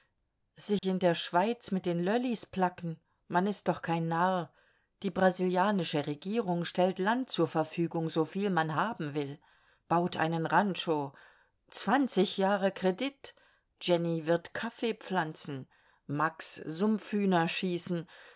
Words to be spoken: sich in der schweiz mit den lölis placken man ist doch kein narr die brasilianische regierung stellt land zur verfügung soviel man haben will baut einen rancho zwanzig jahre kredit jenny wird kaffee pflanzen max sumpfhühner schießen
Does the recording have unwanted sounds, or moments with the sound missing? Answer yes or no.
yes